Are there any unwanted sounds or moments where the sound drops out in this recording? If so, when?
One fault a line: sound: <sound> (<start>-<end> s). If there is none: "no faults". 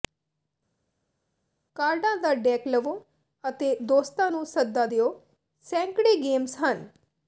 no faults